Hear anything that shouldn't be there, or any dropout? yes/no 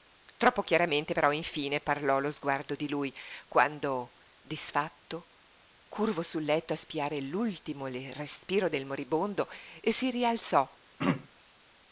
yes